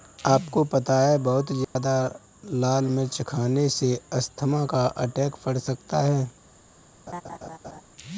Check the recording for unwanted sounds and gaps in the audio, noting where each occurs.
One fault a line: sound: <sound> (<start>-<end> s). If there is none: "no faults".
sound: dropout (1.6-1.8 s)
sound: laugh (7.1-7.8 s)